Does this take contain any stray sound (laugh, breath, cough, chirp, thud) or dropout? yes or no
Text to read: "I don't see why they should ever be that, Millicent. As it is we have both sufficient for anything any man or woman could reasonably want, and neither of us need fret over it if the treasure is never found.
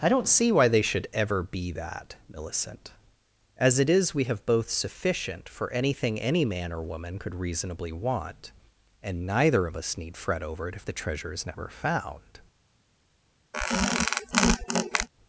yes